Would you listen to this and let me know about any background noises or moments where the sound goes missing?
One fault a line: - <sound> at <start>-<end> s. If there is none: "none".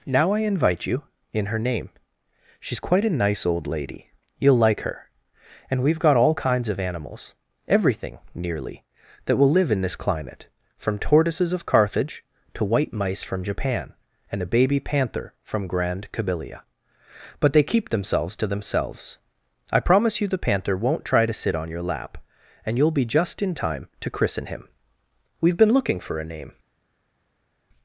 none